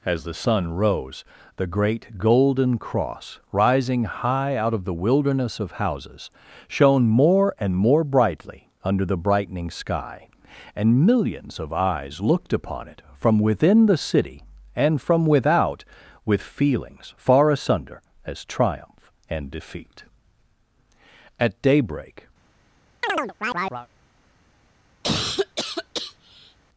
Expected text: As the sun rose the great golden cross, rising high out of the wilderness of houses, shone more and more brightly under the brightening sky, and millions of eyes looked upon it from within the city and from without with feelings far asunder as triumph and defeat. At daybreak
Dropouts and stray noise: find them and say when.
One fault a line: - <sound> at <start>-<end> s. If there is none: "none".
- chirp at 23.0-23.9 s
- cough at 25.0-26.6 s